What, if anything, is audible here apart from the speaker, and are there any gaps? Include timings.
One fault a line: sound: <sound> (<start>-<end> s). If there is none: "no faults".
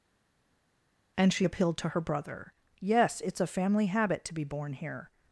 no faults